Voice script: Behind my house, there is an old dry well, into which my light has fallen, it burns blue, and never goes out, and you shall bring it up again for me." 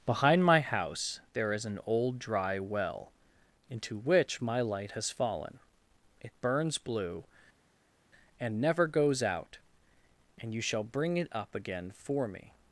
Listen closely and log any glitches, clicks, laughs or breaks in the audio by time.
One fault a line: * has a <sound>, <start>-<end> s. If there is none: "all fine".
all fine